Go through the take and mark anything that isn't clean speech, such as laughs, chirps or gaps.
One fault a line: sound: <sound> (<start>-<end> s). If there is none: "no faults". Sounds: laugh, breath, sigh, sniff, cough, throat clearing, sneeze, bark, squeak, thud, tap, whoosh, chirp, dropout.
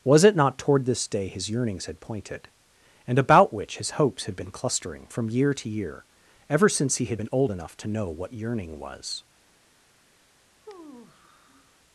sound: sigh (10.6-11.8 s)